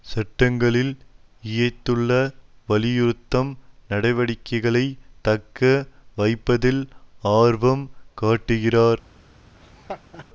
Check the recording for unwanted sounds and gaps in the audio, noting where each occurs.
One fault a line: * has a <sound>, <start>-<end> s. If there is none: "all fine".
* has a laugh, 9.6-10.3 s